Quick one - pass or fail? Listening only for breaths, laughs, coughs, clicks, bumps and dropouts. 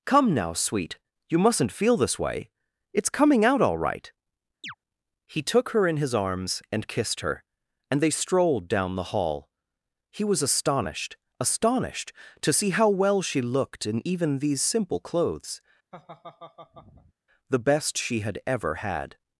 fail